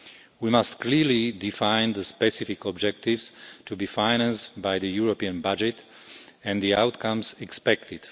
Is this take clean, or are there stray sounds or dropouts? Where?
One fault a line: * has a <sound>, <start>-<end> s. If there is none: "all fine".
all fine